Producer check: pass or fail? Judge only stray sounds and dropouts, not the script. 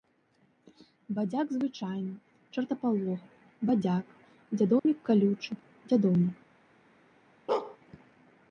fail